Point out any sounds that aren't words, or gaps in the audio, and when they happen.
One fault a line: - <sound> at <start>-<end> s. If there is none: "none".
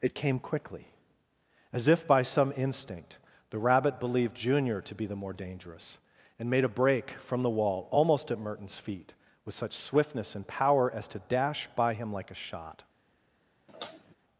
- sigh at 13.7-14.2 s